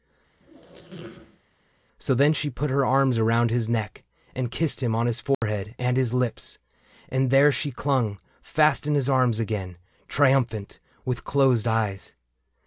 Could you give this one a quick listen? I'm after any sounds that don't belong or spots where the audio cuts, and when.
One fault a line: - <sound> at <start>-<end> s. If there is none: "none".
- squeak at 0.4-1.4 s
- dropout at 5.3-5.4 s